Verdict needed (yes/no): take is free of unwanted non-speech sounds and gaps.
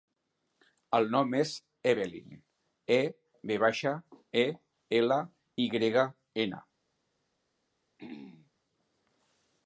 no